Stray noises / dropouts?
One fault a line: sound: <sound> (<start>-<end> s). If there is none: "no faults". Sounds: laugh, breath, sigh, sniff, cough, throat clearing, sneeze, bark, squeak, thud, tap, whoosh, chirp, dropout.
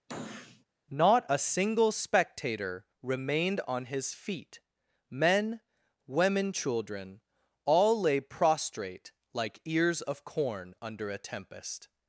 sound: sniff (0.1-0.7 s)